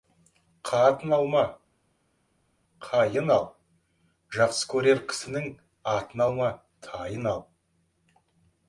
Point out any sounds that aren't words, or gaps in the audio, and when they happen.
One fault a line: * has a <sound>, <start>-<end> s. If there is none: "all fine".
all fine